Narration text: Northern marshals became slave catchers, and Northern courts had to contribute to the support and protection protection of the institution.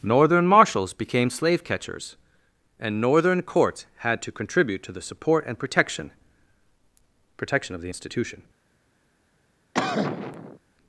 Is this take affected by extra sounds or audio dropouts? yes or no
yes